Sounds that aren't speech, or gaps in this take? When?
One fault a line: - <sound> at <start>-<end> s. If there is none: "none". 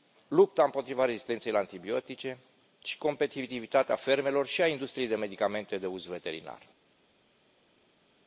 none